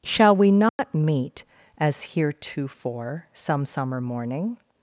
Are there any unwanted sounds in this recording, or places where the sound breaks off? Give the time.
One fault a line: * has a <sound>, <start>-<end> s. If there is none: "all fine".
* has a dropout, 0.7-0.8 s